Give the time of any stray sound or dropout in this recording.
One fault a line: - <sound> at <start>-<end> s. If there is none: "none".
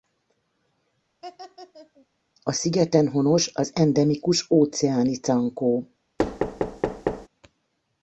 - laugh at 1.2-2.1 s
- thud at 6.2-7.3 s